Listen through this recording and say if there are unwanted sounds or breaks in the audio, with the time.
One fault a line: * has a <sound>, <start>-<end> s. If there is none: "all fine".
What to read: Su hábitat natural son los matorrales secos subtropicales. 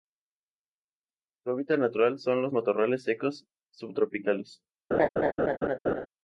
* has a laugh, 4.9-6.1 s